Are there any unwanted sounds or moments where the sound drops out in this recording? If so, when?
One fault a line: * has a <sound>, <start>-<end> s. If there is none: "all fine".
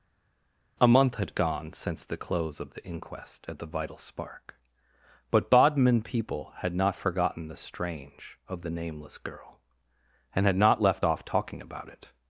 all fine